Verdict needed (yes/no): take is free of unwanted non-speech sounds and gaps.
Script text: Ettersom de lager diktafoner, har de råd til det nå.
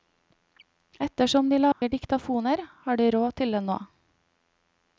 no